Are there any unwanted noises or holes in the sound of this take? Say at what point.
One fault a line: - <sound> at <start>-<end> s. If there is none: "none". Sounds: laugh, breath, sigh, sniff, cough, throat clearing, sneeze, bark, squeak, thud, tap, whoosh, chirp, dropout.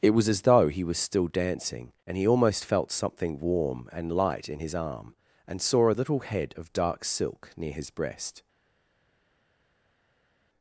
none